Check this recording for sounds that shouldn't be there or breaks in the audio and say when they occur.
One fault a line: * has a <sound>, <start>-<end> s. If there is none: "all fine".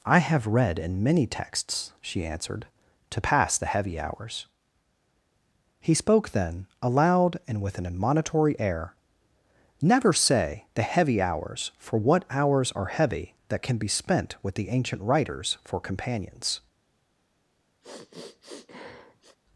* has a sniff, 17.8-19.4 s